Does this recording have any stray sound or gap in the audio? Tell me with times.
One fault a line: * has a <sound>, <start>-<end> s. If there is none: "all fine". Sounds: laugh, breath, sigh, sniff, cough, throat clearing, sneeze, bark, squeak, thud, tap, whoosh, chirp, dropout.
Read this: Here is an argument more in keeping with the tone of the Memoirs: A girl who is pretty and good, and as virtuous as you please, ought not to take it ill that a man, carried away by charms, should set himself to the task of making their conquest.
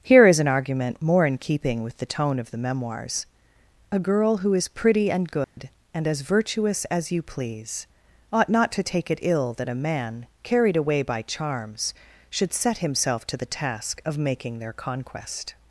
* has a dropout, 5.4-5.6 s